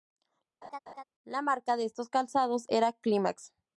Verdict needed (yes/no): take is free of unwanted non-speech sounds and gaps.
no